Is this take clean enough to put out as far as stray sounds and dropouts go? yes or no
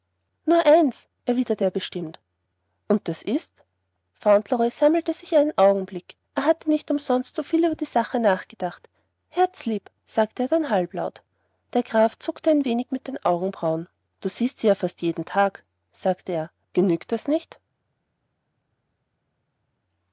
yes